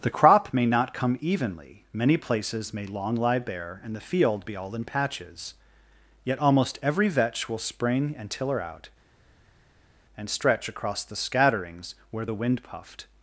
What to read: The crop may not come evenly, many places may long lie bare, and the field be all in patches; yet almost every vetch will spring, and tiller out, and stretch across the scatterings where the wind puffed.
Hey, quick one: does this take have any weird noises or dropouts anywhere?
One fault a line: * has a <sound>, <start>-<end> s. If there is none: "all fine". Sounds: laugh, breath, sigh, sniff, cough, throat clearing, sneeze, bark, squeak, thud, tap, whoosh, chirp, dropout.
all fine